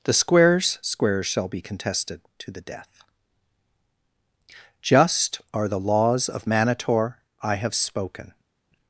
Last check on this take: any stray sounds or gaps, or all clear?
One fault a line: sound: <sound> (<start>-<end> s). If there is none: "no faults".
no faults